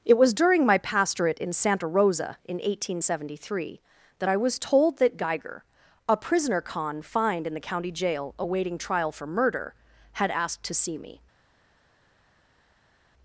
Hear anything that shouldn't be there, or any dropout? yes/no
no